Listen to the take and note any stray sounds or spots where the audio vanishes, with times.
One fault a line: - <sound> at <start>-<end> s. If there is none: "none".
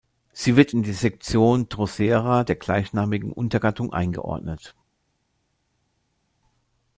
none